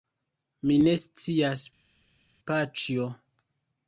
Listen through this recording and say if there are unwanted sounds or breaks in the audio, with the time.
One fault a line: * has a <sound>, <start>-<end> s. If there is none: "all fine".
all fine